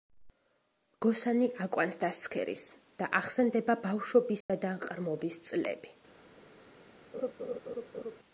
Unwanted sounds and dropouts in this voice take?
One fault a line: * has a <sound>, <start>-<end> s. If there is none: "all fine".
* has a dropout, 4.4-4.5 s
* has a laugh, 7.1-8.2 s